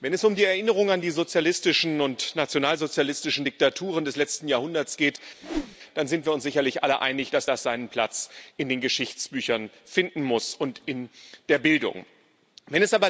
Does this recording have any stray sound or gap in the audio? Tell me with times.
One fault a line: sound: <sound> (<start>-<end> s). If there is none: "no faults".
sound: whoosh (5.4-5.8 s)